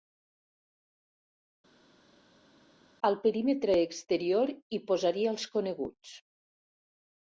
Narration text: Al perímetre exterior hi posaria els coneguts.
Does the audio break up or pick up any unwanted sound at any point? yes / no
no